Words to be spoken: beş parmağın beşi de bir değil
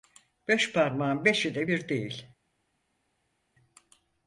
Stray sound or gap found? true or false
false